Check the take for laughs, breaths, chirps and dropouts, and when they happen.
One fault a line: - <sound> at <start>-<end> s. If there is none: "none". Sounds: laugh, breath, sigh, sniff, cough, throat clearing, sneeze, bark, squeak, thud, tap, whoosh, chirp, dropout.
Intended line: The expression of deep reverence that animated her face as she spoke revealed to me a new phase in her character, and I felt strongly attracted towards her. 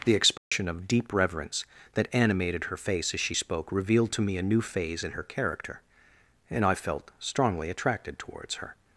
- dropout at 0.4-0.5 s